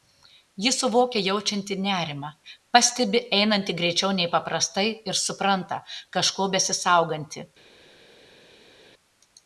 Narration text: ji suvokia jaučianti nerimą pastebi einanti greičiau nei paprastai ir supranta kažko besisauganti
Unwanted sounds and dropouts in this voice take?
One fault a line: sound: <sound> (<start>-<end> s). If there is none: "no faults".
no faults